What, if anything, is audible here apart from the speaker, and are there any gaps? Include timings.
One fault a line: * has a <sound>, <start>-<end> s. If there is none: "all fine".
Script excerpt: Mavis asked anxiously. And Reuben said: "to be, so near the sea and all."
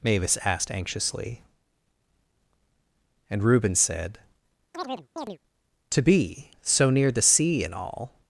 * has a chirp, 4.7-5.4 s